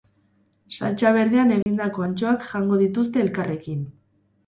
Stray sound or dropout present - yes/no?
yes